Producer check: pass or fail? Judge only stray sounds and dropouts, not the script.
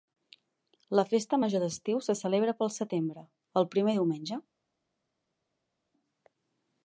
pass